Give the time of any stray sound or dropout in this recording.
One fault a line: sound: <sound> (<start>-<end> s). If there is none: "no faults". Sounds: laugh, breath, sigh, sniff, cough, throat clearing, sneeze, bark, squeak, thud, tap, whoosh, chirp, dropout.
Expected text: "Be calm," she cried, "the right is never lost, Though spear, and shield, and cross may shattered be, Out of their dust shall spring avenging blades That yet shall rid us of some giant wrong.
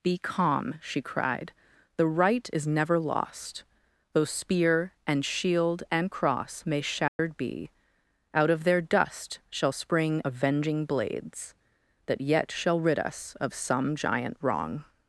sound: dropout (7.1-7.2 s)